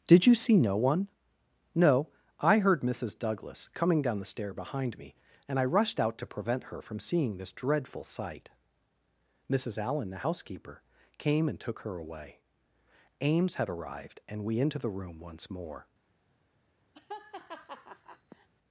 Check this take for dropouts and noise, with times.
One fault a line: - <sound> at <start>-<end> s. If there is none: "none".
- laugh at 16.9-18.5 s